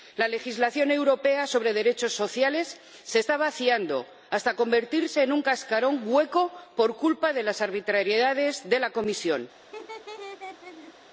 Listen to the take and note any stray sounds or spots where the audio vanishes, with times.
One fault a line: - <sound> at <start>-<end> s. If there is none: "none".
- laugh at 9.7-10.9 s